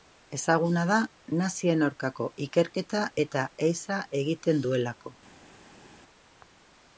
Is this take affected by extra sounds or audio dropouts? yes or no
no